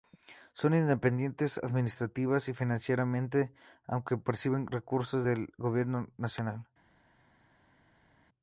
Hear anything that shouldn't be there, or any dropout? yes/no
no